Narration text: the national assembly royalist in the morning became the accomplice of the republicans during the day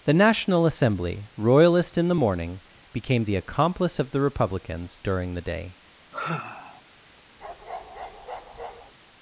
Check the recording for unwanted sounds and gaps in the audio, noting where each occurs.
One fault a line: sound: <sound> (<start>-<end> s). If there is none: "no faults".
sound: sigh (6.1-6.8 s)
sound: bark (7.4-8.9 s)